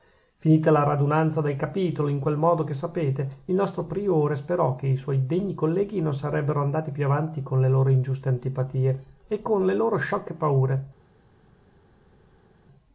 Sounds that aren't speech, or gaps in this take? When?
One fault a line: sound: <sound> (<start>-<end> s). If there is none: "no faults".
no faults